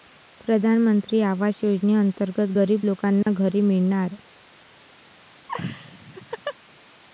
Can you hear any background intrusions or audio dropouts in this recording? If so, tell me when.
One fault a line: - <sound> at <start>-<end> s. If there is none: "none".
- dropout at 3.2-3.3 s
- laugh at 5.5-6.6 s